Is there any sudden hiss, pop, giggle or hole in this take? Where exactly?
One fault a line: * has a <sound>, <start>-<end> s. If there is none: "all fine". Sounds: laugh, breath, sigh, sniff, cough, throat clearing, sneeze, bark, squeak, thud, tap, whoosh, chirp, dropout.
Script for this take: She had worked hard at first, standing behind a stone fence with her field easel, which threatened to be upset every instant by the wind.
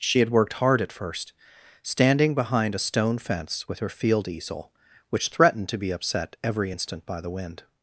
all fine